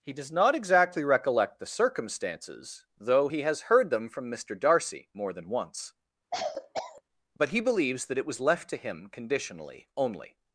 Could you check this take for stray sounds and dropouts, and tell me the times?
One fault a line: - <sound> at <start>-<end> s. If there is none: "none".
- cough at 6.3-7.0 s